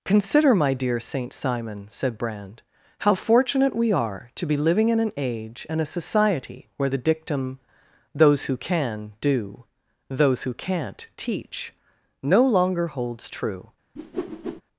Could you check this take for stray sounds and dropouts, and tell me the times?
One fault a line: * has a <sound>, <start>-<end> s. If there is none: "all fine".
* has a whoosh, 14.0-14.6 s